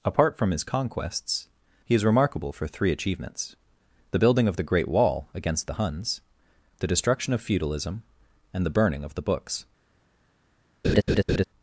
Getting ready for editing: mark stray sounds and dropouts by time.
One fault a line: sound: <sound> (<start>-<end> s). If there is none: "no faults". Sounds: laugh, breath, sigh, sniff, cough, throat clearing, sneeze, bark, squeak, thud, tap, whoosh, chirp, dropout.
sound: laugh (10.8-11.4 s)